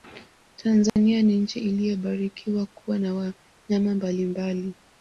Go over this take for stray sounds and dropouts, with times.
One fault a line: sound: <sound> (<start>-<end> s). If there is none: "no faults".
sound: dropout (0.9-1.0 s)